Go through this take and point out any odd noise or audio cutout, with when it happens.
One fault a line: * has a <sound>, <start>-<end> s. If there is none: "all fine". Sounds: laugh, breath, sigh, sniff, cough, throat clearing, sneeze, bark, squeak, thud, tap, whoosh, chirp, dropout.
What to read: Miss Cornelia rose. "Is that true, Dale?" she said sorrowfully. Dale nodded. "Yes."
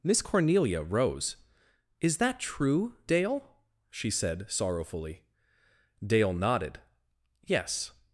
all fine